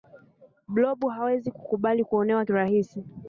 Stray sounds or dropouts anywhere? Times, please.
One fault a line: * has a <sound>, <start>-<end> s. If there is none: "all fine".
all fine